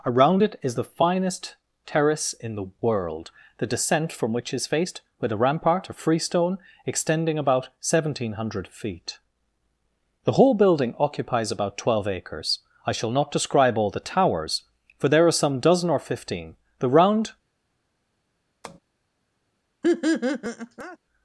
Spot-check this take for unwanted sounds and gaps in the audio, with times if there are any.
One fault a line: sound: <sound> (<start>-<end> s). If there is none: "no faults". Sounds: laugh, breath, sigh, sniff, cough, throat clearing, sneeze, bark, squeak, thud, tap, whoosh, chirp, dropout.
sound: tap (18.6-18.8 s)
sound: laugh (19.8-21.0 s)